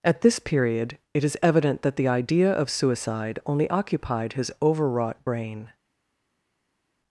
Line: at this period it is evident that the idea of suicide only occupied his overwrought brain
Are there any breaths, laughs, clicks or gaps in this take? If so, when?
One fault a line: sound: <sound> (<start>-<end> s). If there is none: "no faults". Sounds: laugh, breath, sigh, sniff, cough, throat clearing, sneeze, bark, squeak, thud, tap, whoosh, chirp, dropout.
no faults